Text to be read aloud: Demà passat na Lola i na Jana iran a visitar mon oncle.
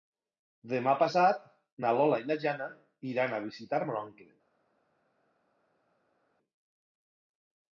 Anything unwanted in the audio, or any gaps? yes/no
no